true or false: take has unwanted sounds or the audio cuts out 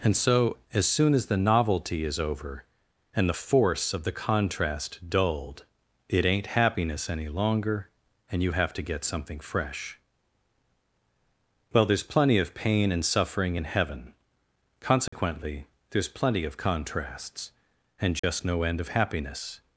true